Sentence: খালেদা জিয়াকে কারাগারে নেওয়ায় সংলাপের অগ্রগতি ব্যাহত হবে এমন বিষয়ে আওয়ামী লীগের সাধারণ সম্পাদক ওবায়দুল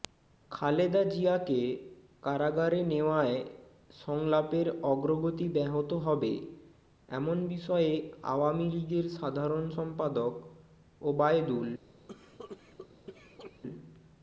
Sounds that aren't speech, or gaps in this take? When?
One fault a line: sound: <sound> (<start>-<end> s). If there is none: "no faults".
sound: cough (12.1-13.6 s)